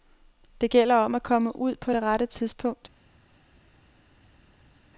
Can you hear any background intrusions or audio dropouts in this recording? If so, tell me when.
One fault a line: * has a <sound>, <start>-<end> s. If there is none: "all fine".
all fine